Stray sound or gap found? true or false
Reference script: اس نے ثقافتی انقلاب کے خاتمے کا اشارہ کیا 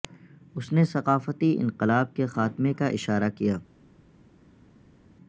false